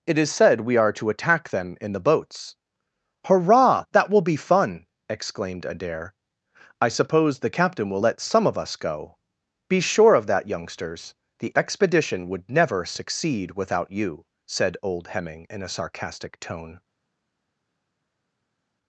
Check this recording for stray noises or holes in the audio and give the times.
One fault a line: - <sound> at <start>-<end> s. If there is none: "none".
none